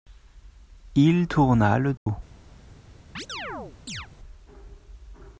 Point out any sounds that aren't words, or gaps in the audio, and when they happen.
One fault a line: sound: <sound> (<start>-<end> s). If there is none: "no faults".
sound: dropout (2.0-2.1 s)
sound: chirp (3.2-4.1 s)